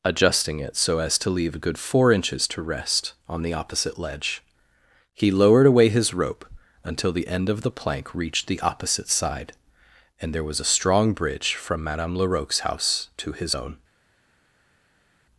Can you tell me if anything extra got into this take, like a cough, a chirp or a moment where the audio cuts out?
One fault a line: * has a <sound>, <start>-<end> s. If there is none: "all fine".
all fine